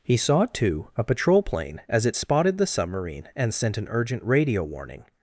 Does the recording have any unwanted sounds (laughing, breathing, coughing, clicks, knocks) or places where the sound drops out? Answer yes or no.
no